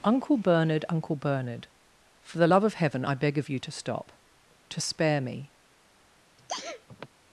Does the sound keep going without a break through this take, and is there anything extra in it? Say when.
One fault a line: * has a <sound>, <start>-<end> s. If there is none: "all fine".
* has a sneeze, 6.4-7.1 s